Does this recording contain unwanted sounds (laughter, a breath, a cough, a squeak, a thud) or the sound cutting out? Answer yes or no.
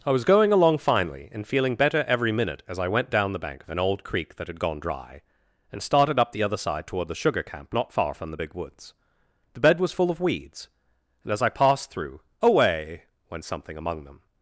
no